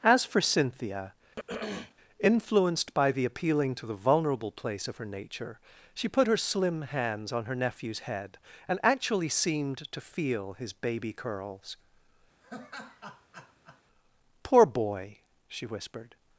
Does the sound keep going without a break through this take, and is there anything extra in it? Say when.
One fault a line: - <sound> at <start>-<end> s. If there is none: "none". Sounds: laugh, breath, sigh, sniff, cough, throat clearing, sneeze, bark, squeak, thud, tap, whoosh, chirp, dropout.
- throat clearing at 1.4-2.0 s
- laugh at 12.4-13.8 s